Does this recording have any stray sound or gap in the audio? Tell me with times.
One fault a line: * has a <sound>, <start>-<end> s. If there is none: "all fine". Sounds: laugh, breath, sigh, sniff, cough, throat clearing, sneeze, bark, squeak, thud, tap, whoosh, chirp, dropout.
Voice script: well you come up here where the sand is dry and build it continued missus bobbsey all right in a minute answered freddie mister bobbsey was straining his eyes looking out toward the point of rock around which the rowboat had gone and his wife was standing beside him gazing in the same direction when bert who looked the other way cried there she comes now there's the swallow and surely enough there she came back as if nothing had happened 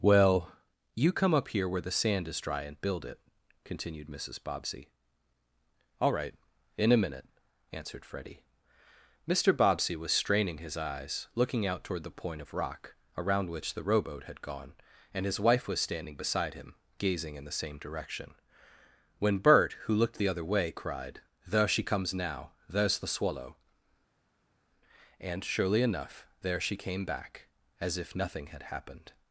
all fine